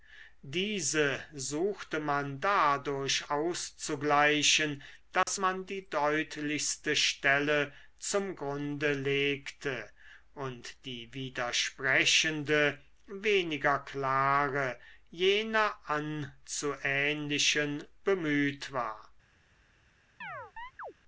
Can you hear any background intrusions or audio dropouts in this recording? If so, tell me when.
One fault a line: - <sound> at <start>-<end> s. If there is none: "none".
- dropout at 5.2-5.3 s
- chirp at 20.2-20.9 s